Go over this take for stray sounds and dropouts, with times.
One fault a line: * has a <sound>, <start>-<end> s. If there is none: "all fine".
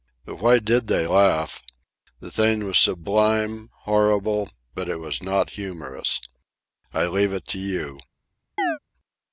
* has a chirp, 8.6-8.8 s